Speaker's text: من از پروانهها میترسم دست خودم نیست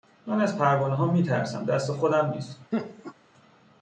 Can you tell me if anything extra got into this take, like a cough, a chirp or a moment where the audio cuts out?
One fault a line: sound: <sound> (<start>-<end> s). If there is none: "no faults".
sound: laugh (2.7-3.1 s)